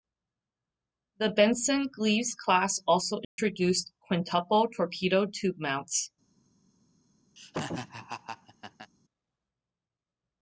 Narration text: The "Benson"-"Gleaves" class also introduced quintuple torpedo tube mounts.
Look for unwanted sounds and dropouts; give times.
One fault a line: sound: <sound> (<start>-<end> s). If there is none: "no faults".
sound: dropout (3.2-3.4 s)
sound: laugh (7.4-8.9 s)